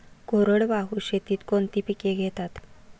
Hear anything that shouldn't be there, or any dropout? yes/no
no